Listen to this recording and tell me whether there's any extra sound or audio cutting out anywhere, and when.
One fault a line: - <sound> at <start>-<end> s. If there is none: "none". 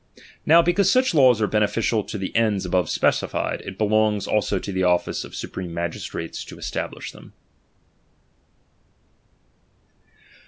none